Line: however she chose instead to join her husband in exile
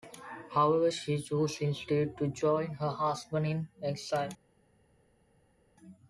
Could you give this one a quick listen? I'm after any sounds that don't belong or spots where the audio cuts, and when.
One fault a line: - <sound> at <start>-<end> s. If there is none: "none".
none